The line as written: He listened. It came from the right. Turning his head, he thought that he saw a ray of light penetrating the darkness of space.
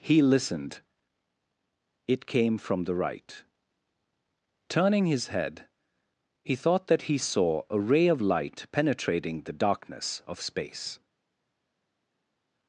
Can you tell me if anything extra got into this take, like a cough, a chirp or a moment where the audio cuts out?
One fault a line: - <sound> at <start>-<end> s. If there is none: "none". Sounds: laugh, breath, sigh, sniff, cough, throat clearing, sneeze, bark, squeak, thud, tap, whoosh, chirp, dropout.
none